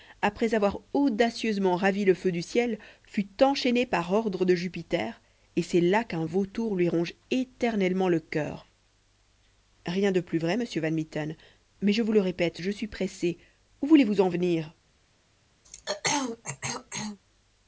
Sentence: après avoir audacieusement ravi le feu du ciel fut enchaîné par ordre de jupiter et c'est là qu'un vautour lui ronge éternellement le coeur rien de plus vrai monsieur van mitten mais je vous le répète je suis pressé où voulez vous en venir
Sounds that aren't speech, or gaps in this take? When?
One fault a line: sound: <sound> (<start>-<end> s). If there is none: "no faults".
sound: throat clearing (15.6-17.2 s)